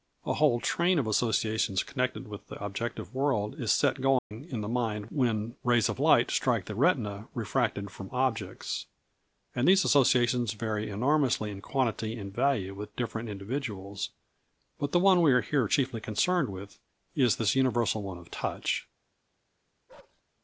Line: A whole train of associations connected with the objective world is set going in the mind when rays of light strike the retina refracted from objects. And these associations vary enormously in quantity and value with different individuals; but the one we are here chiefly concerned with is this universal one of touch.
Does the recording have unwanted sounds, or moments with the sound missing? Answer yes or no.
yes